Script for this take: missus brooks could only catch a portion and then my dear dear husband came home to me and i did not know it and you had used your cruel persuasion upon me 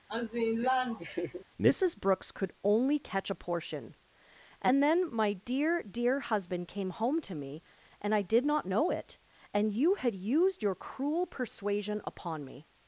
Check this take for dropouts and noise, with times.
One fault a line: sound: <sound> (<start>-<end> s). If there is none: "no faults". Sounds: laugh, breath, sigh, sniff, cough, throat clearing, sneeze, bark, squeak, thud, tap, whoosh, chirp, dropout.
sound: laugh (0.1-1.4 s)